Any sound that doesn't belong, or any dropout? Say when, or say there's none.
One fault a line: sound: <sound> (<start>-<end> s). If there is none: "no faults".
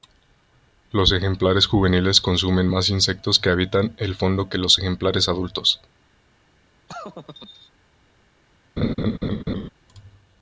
sound: laugh (6.9-7.7 s)
sound: laugh (8.8-9.7 s)